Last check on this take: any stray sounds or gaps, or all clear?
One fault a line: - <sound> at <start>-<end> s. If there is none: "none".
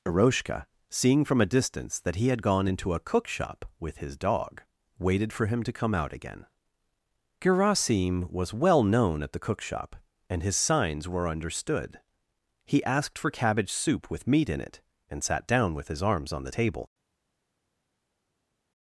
none